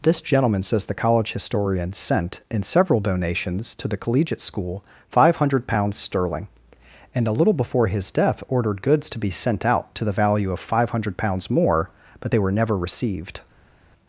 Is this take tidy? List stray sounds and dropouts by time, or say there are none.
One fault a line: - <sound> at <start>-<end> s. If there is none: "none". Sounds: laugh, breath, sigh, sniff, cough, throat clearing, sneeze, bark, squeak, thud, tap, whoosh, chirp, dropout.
none